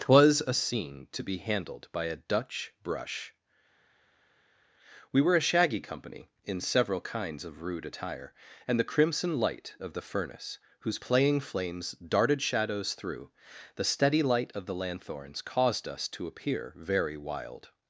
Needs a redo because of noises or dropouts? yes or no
no